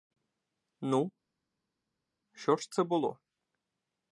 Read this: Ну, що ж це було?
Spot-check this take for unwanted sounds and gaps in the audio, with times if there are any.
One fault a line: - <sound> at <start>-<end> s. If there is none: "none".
none